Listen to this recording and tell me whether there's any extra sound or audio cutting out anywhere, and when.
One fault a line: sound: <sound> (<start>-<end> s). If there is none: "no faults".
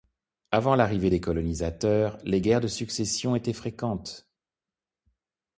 no faults